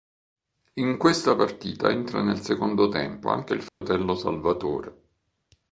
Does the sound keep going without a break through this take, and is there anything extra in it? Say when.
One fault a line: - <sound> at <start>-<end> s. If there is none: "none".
- dropout at 3.7-3.8 s